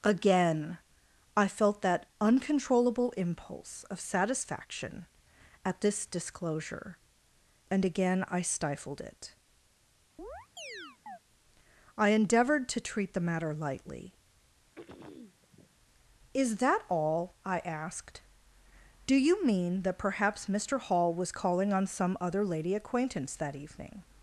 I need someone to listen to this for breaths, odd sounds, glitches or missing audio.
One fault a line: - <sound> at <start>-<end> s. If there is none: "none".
- chirp at 10.2-11.2 s
- throat clearing at 14.8-15.7 s